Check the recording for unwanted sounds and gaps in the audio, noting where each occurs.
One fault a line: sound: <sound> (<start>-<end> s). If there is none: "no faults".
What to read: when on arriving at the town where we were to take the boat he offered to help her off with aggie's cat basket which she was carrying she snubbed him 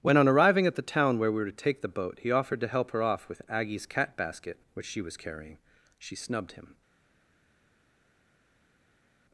no faults